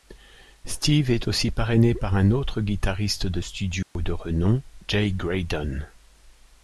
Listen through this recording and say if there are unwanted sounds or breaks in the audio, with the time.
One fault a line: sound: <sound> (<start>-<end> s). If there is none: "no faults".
sound: dropout (3.8-4.0 s)